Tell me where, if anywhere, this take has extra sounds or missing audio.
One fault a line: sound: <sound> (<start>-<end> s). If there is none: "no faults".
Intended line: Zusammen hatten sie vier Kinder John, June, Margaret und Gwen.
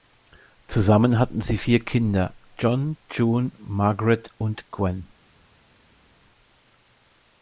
no faults